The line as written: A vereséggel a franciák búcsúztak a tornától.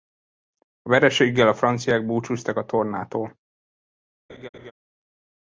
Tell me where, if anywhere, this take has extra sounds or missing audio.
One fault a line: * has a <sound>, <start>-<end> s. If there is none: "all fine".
* has a laugh, 4.3-4.7 s